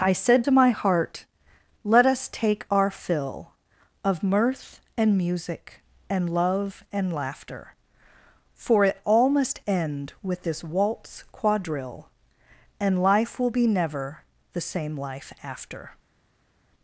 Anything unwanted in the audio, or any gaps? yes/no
no